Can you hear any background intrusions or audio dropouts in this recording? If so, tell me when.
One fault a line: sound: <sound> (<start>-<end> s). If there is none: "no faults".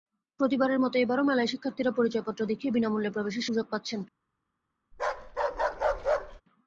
sound: bark (4.9-6.4 s)